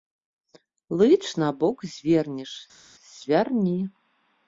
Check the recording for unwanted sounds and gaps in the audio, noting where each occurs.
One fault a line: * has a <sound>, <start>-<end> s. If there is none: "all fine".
all fine